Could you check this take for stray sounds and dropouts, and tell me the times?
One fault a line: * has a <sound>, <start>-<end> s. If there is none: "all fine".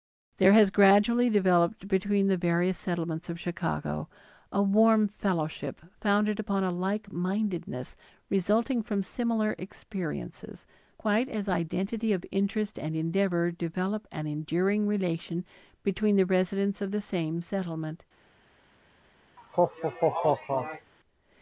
* has a laugh, 19.4-20.9 s